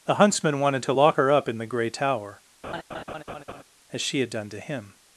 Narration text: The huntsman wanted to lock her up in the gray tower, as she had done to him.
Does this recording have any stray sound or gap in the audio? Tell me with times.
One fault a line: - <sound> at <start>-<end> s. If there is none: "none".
- laugh at 2.6-3.6 s